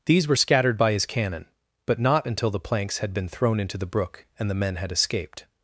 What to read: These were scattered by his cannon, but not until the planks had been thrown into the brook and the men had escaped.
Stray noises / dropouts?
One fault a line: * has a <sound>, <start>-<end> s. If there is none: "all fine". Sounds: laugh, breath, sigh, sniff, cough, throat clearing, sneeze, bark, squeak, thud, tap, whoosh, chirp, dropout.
all fine